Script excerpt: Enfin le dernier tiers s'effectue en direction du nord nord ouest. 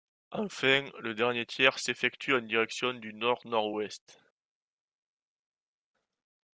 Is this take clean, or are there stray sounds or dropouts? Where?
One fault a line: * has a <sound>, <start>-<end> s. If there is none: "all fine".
all fine